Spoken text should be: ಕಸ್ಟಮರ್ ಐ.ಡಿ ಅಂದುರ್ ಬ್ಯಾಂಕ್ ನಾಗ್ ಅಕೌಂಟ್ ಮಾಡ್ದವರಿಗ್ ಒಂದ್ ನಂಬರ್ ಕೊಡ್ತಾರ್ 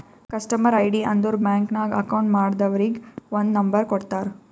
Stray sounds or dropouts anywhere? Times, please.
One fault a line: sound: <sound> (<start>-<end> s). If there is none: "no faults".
no faults